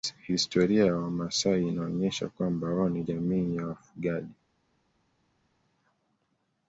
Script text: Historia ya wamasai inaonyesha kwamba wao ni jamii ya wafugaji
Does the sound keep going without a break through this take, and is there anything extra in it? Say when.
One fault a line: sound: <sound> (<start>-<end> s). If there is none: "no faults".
no faults